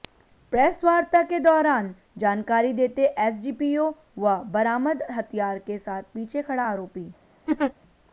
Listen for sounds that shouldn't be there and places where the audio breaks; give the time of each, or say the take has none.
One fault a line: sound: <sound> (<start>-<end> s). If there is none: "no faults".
sound: laugh (7.5-7.7 s)